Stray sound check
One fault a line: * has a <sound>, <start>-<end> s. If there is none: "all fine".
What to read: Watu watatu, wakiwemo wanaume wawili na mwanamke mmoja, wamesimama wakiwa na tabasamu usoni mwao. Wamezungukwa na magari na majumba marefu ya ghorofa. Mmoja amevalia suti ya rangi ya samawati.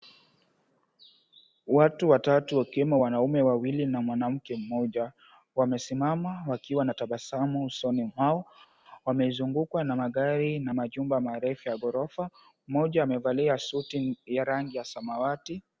all fine